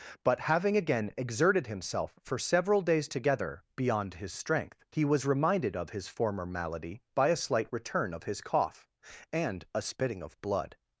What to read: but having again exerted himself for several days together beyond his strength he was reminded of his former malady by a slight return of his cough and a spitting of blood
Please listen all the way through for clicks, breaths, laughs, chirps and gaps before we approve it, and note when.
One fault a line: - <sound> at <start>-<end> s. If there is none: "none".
none